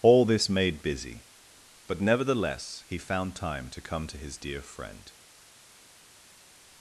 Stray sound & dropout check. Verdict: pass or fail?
pass